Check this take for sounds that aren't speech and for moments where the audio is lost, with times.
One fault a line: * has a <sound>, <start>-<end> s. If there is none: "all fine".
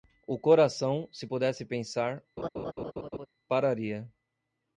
* has a laugh, 2.4-3.3 s